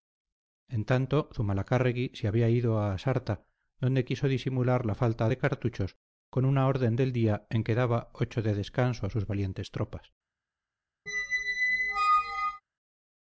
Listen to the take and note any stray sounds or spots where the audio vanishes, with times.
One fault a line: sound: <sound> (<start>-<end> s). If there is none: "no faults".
sound: squeak (11.1-12.6 s)